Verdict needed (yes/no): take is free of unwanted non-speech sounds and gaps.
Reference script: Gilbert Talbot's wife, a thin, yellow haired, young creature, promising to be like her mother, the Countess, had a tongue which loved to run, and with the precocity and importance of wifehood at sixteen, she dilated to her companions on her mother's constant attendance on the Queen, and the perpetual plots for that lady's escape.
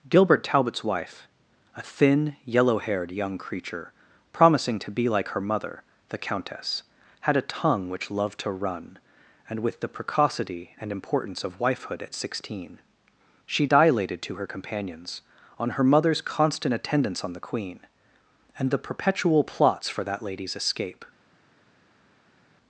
yes